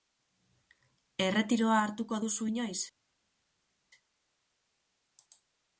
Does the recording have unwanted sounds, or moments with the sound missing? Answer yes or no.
no